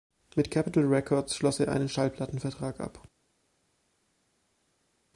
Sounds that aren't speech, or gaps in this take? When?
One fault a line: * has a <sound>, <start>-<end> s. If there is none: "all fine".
all fine